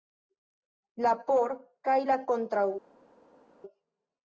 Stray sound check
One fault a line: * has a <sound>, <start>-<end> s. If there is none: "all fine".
all fine